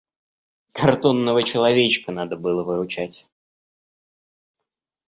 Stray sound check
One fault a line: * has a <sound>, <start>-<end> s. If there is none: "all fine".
all fine